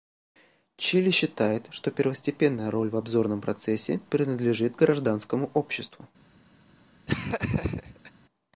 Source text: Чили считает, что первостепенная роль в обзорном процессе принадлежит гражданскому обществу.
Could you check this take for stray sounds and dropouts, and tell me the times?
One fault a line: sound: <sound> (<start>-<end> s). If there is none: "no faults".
sound: laugh (7.1-8.1 s)